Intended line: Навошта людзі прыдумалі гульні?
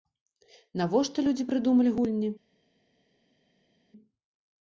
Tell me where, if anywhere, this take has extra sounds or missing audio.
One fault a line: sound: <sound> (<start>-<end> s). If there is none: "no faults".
no faults